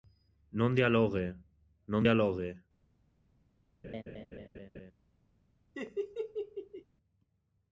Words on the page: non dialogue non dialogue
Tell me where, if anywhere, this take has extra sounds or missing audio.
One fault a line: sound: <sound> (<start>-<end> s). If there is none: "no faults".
sound: laugh (3.8-4.9 s)
sound: laugh (5.7-6.8 s)